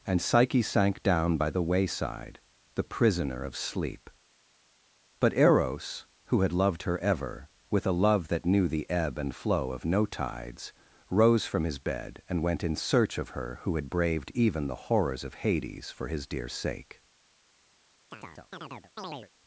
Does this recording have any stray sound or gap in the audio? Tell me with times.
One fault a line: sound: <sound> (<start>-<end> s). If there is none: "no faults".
sound: chirp (18.1-19.3 s)